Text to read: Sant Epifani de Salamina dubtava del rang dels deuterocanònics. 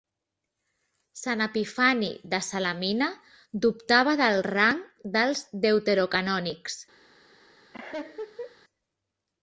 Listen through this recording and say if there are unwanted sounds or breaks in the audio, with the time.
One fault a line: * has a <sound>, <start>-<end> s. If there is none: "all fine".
* has a laugh, 7.7-8.6 s